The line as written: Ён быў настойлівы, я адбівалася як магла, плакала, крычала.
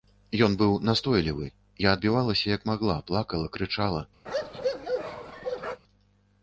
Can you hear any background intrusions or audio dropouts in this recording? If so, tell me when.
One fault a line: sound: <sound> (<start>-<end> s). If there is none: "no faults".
sound: bark (4.3-5.8 s)